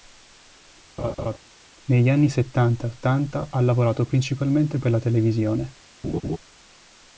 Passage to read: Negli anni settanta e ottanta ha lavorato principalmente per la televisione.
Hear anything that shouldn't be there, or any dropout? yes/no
yes